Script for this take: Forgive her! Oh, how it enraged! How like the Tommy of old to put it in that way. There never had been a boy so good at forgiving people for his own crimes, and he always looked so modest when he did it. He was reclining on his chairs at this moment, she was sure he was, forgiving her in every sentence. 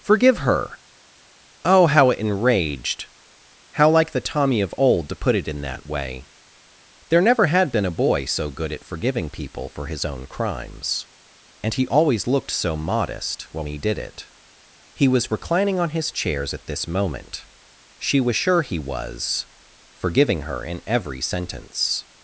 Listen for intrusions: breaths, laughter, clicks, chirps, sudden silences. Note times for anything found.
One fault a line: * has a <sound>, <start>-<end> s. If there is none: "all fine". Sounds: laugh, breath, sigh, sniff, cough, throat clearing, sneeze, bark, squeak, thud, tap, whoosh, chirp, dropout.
all fine